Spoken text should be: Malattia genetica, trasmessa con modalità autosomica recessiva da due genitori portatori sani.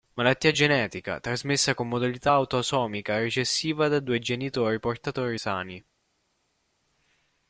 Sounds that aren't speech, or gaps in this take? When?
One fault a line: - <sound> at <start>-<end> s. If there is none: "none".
none